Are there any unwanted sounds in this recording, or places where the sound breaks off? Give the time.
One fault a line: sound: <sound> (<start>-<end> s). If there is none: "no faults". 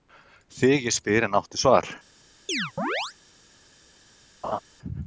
sound: chirp (2.5-3.1 s)
sound: laugh (4.4-4.6 s)